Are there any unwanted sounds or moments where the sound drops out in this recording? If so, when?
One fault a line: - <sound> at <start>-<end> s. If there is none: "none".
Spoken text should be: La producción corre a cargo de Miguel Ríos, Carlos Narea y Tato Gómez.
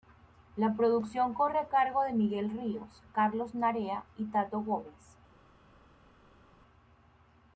none